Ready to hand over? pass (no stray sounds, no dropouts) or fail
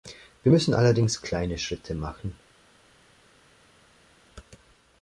pass